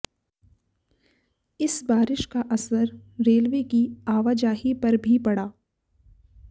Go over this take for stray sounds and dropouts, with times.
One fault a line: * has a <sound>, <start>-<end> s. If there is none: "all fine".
all fine